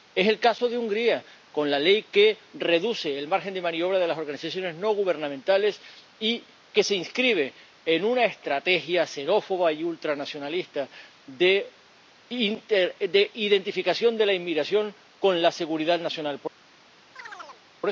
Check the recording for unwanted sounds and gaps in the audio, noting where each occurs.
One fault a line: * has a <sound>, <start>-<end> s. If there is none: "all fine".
* has a chirp, 17.2-17.6 s